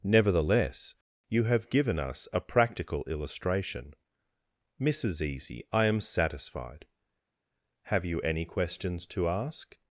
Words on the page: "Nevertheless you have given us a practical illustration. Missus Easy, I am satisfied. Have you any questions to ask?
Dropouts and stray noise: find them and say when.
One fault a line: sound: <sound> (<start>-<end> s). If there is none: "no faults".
no faults